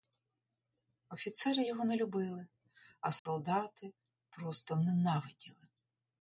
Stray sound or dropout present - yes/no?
yes